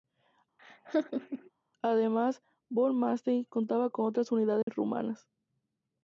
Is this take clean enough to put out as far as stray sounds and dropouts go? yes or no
no